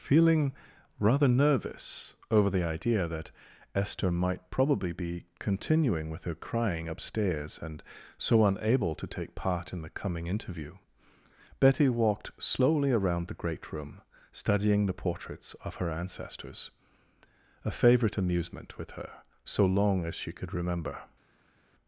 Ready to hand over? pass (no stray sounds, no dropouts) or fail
pass